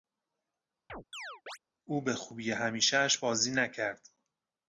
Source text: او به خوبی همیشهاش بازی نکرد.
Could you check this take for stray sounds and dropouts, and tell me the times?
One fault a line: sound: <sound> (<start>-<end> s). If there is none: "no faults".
sound: chirp (0.9-1.6 s)